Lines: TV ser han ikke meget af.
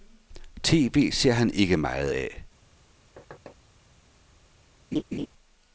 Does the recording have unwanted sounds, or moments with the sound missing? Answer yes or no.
yes